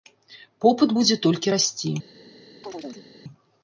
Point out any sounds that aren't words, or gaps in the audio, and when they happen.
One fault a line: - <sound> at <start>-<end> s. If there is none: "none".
- chirp at 2.6-3.1 s